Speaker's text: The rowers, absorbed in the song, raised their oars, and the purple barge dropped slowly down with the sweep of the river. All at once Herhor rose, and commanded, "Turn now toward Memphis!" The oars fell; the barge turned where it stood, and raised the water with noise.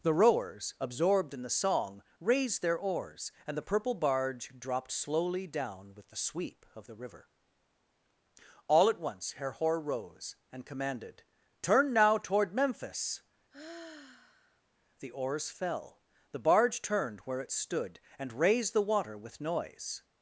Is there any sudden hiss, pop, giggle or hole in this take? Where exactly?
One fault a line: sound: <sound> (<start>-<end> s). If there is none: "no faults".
sound: sigh (13.5-14.6 s)